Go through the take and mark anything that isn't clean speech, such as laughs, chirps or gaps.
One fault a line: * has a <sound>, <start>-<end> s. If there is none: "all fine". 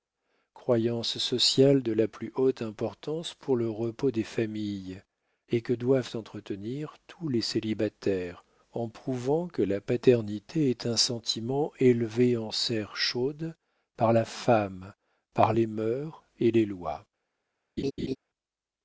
* has a laugh, 17.8-18.2 s